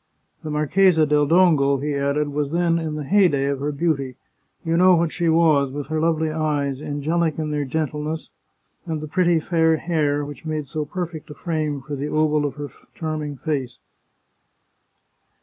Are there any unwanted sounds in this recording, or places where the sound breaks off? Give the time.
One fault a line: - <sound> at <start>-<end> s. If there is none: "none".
none